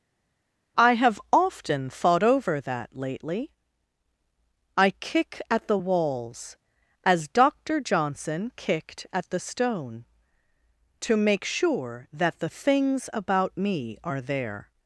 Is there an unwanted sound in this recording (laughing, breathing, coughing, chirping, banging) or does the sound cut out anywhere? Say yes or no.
no